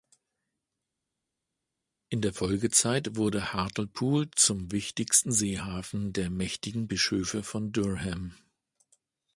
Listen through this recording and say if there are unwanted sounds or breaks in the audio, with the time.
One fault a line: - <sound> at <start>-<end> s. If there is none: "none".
none